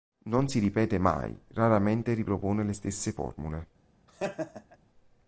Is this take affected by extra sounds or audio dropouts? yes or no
yes